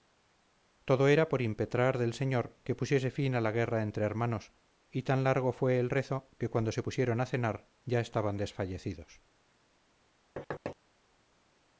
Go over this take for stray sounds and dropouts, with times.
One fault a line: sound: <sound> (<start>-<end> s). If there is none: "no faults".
sound: thud (10.4-10.8 s)